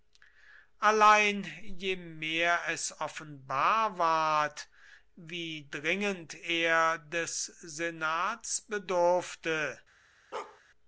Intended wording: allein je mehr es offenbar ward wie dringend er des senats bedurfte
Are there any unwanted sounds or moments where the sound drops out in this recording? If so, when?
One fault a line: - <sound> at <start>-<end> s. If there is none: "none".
- bark at 10.3-10.6 s